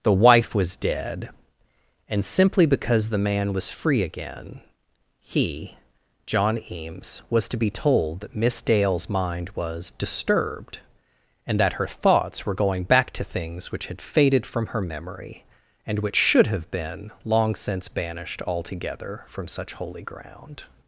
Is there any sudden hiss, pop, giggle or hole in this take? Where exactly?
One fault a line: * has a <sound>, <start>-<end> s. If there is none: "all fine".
all fine